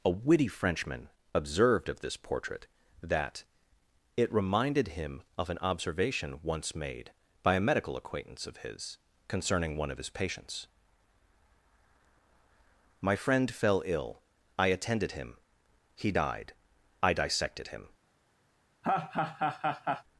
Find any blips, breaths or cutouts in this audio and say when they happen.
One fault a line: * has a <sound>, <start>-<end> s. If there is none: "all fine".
* has a laugh, 18.8-20.0 s